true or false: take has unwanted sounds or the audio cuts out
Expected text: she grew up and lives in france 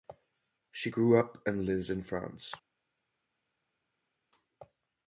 false